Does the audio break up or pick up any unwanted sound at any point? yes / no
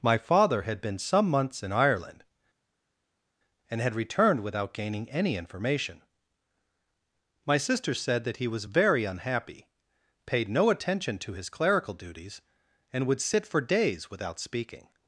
no